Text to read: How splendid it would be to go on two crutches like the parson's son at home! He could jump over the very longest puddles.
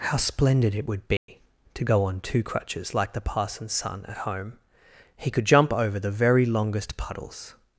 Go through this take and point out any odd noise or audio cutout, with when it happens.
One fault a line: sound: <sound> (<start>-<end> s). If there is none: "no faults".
sound: dropout (1.2-1.3 s)